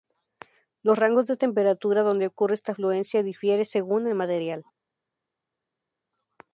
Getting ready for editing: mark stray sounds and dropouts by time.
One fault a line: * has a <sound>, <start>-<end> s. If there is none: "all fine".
all fine